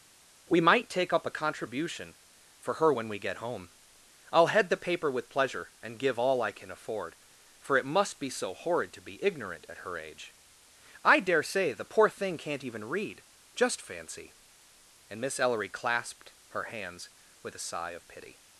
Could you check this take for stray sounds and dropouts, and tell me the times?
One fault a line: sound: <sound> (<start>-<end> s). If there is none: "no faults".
no faults